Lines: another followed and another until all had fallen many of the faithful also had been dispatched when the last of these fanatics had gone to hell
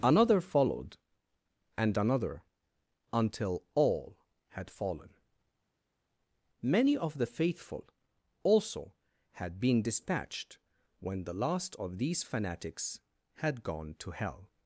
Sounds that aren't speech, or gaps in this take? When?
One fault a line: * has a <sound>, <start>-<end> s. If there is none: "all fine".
all fine